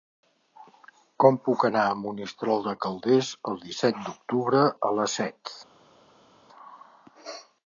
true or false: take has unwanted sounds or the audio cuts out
false